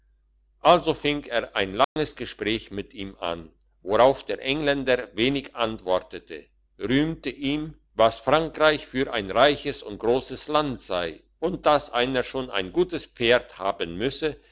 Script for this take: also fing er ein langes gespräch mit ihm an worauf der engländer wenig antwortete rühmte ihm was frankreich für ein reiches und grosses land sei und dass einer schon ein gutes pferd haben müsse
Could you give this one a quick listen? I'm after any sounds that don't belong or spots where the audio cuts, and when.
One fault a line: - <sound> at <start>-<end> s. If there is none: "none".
- dropout at 1.8-2.0 s